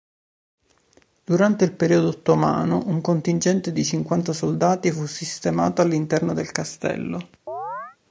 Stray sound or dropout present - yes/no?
yes